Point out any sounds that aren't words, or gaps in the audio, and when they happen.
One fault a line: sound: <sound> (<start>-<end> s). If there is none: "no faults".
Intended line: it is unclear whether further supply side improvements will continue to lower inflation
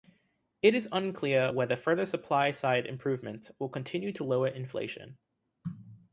no faults